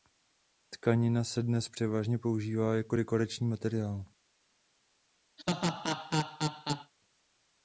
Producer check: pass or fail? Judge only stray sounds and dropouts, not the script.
fail